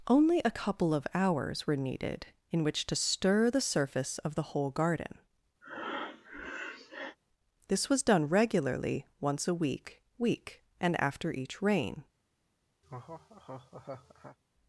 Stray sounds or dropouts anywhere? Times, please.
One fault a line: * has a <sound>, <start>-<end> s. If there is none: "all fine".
* has a breath, 5.6-7.2 s
* has a laugh, 12.8-14.4 s